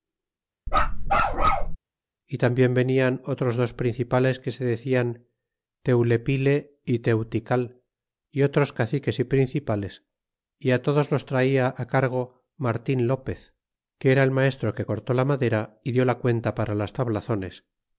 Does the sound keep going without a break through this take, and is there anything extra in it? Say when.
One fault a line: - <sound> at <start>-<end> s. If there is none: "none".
- bark at 0.7-1.8 s